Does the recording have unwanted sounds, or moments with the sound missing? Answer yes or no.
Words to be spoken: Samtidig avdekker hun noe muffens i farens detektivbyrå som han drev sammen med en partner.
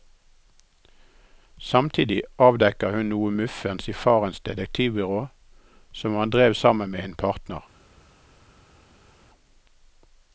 no